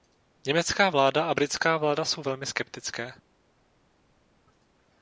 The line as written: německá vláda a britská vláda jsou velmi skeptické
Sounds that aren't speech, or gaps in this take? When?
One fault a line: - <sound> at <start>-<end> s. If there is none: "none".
none